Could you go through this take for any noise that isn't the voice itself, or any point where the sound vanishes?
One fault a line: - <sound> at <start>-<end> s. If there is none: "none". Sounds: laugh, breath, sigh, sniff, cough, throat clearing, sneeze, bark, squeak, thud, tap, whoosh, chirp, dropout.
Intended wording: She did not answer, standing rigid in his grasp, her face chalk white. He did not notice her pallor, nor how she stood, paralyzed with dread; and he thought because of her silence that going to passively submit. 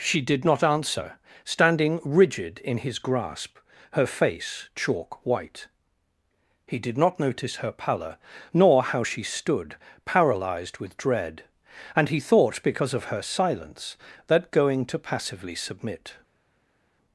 none